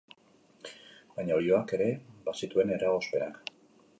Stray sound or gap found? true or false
false